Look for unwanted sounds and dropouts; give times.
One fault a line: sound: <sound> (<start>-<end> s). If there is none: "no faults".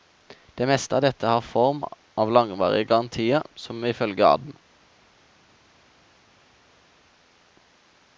no faults